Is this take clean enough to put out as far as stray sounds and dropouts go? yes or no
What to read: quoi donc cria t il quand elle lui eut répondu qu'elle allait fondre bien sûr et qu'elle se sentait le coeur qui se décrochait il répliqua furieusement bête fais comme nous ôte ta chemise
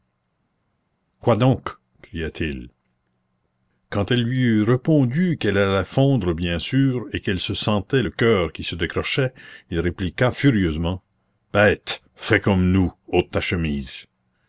yes